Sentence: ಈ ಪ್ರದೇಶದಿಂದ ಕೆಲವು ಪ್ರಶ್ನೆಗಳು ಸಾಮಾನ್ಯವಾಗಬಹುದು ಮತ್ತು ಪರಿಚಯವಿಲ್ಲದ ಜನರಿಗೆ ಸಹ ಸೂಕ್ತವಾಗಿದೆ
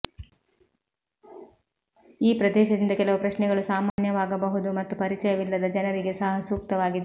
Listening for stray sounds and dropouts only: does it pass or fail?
fail